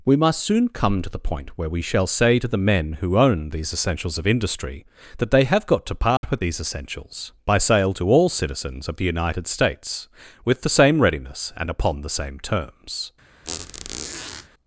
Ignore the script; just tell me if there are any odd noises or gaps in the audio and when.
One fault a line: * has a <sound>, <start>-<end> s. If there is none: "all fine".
* has a dropout, 6.2-6.2 s
* has a squeak, 13.4-14.5 s